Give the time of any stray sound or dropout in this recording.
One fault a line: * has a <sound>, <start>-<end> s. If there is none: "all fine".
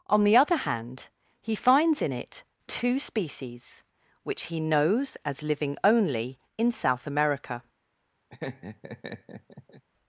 * has a laugh, 8.3-9.8 s